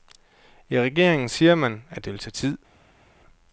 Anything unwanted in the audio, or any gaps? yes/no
no